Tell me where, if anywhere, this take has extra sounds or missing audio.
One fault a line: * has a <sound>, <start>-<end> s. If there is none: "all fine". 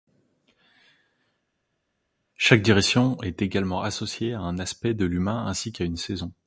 all fine